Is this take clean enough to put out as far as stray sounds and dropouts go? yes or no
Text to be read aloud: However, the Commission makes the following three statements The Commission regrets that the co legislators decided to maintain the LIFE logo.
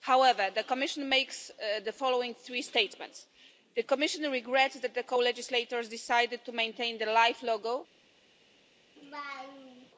no